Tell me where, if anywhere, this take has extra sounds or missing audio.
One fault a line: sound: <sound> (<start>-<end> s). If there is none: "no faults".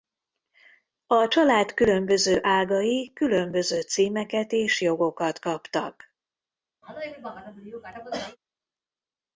sound: cough (6.8-8.4 s)